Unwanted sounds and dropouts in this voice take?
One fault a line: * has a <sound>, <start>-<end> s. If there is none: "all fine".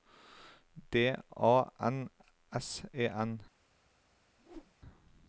* has a whoosh, 4.4-4.8 s